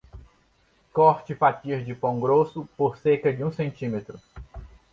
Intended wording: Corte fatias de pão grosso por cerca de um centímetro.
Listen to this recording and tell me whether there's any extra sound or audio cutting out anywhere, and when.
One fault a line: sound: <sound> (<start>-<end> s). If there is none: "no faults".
no faults